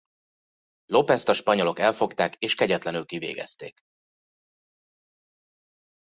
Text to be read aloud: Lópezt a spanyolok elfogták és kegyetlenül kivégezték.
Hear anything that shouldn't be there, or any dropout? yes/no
no